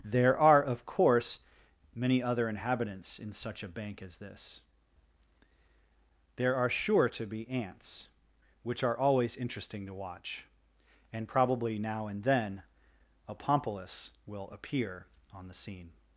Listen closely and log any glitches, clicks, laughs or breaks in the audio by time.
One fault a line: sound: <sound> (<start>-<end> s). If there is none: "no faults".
no faults